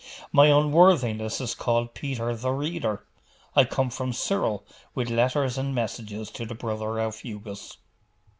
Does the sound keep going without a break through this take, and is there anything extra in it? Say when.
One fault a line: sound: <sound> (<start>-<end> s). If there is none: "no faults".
no faults